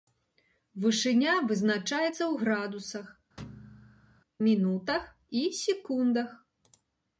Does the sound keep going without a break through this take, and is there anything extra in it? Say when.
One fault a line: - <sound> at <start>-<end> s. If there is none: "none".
- thud at 3.4-4.2 s